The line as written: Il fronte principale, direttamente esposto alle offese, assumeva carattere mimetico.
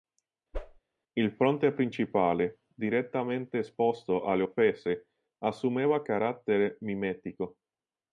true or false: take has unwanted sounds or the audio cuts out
true